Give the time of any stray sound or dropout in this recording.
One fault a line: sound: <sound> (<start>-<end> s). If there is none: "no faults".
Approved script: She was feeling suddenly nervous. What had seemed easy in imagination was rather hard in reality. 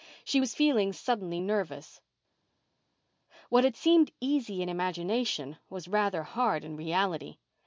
no faults